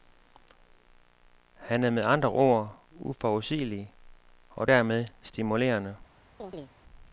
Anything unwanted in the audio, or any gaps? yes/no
yes